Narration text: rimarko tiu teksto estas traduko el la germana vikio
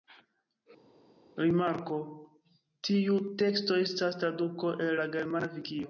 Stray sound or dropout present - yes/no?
no